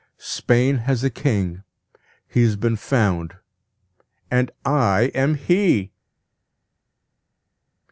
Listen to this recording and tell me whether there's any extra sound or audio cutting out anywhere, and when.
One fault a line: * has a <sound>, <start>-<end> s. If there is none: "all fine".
all fine